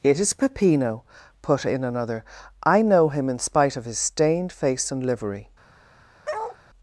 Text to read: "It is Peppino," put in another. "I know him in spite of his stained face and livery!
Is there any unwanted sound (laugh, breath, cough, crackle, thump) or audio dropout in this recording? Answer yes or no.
yes